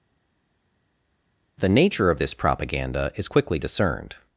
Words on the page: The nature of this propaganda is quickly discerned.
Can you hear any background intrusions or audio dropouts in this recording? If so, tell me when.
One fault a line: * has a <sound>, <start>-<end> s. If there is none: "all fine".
all fine